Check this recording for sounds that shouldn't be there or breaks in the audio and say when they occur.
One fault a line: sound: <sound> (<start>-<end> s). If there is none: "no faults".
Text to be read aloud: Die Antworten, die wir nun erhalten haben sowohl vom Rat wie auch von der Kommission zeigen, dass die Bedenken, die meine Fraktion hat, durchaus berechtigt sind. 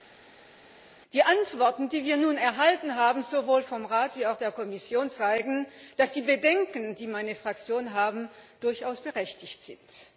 no faults